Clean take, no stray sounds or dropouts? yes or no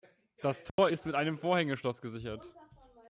no